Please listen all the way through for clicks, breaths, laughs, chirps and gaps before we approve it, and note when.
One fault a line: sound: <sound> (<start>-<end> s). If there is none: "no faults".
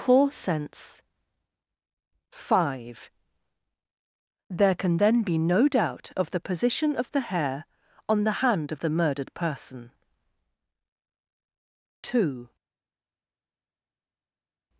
no faults